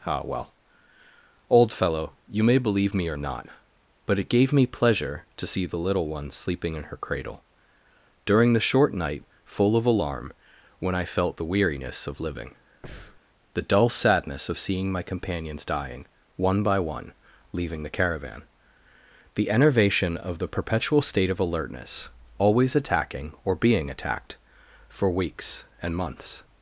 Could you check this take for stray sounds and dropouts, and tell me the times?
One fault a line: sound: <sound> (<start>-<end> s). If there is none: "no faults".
sound: breath (12.8-13.2 s)